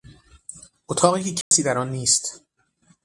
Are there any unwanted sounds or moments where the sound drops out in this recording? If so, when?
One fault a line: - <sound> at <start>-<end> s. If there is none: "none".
- dropout at 1.4-1.5 s